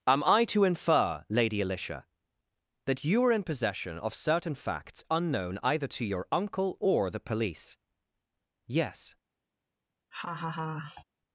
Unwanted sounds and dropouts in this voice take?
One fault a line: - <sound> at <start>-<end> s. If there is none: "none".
- laugh at 10.1-11.0 s